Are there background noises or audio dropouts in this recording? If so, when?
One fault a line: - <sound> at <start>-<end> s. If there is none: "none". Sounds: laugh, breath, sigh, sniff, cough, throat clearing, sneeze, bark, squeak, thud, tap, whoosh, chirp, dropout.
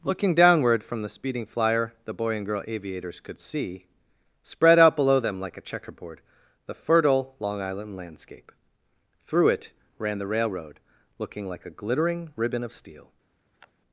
- sniff at 13.5-13.7 s